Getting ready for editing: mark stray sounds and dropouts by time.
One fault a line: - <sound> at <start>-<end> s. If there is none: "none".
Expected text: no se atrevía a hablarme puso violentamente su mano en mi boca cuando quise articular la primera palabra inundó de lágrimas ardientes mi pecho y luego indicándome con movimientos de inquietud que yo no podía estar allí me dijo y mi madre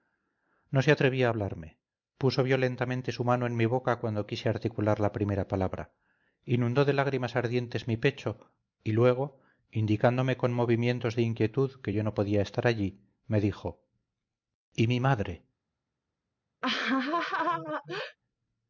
- laugh at 16.6-18.2 s